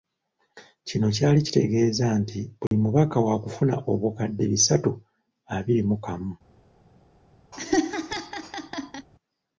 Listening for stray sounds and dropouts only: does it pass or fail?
fail